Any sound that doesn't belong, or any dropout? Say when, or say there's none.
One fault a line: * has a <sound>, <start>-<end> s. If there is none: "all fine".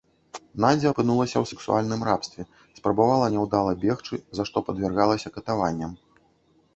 all fine